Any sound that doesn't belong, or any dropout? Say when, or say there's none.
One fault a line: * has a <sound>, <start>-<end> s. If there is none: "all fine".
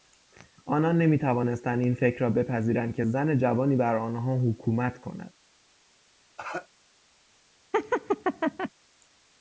* has a cough, 6.4-6.7 s
* has a laugh, 7.7-8.7 s